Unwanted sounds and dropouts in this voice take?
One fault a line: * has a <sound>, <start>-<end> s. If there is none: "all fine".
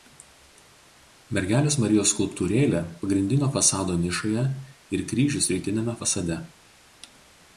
all fine